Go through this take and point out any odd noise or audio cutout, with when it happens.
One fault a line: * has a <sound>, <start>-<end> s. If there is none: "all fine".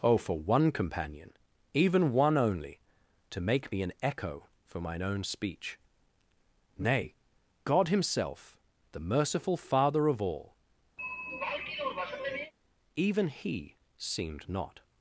* has a throat clearing, 11.0-12.5 s